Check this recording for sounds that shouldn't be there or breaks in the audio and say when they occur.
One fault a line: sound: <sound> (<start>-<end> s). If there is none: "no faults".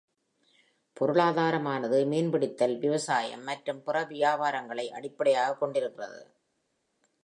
no faults